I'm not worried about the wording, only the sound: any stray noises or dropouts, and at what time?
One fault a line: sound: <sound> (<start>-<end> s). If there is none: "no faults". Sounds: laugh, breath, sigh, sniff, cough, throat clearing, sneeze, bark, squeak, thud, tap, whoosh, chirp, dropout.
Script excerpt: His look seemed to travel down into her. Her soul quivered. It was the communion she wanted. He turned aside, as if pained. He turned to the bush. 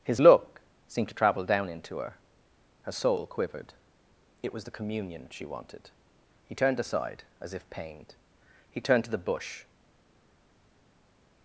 no faults